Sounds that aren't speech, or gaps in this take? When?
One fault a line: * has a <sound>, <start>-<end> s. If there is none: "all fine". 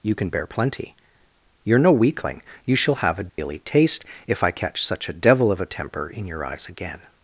* has a dropout, 3.3-3.4 s